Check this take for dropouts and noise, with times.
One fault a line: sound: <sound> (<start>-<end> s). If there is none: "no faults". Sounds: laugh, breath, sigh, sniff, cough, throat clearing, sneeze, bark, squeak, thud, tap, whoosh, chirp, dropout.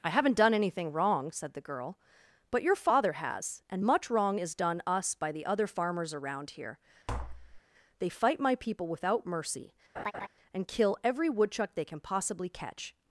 sound: tap (7.1-7.6 s)
sound: laugh (10.0-10.3 s)